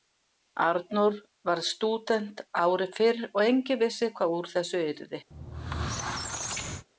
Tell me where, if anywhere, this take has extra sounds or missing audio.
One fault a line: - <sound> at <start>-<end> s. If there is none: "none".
- squeak at 5.3-6.9 s